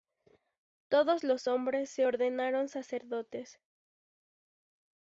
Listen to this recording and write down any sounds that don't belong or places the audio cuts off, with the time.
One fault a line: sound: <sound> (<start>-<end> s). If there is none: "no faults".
no faults